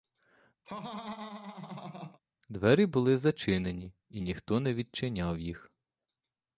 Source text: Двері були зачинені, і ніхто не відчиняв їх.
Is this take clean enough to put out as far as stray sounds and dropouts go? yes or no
no